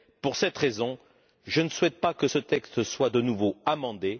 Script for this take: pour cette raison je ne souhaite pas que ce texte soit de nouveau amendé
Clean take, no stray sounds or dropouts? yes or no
yes